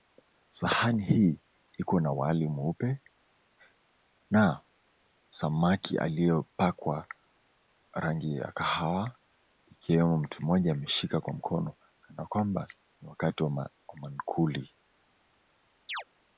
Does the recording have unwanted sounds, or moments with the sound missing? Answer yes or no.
yes